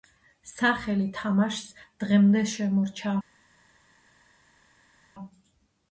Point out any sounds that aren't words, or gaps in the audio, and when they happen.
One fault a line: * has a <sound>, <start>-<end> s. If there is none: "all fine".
all fine